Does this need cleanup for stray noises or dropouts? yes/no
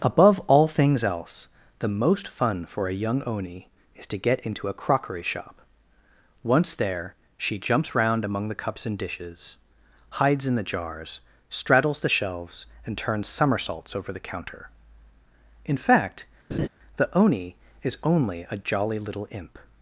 yes